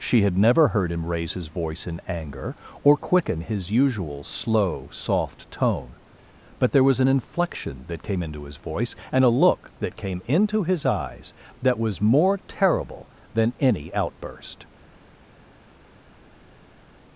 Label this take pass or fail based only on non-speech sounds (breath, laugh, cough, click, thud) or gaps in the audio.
pass